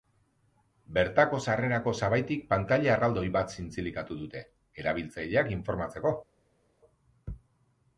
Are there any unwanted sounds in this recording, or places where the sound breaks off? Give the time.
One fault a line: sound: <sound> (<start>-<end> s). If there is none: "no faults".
no faults